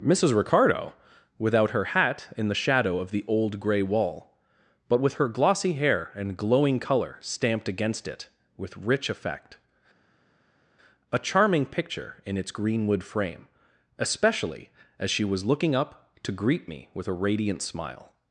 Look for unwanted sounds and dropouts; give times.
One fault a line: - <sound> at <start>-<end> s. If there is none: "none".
none